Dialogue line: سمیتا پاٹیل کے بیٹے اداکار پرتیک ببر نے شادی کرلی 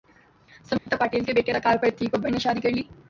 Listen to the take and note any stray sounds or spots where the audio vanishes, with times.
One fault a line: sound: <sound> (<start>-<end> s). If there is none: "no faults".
sound: dropout (0.8-0.9 s)